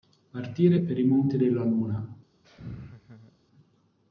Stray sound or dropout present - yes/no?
yes